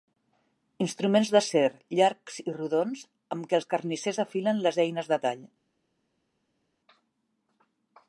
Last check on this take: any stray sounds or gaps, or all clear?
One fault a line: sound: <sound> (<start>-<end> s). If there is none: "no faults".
no faults